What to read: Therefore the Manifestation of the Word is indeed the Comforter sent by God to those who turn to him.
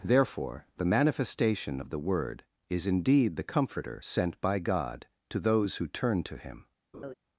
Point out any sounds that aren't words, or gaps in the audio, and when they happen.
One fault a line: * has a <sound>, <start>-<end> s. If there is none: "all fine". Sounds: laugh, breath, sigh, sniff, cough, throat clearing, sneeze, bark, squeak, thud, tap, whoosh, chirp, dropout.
* has a laugh, 6.9-7.1 s